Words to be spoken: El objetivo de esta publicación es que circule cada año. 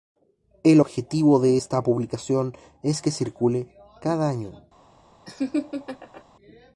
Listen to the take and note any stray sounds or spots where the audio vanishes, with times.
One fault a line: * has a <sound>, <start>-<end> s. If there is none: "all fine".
* has a laugh, 5.2-6.2 s